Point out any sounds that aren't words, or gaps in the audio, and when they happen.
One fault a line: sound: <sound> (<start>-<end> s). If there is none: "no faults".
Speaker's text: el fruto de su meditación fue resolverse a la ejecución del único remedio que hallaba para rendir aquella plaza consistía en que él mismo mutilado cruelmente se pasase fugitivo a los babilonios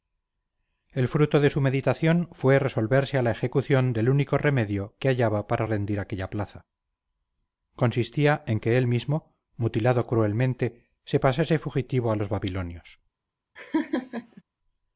sound: laugh (13.6-14.4 s)